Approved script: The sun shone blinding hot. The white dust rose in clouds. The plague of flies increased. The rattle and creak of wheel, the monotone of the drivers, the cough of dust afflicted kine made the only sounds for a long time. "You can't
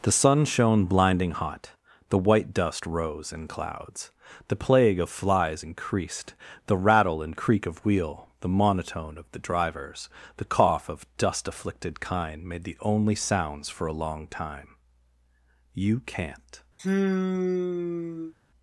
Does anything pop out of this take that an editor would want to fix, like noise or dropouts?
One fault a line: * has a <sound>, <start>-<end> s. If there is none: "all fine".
* has a sigh, 16.8-18.3 s